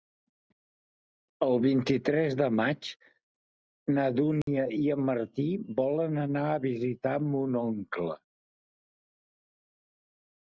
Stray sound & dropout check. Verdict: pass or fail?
fail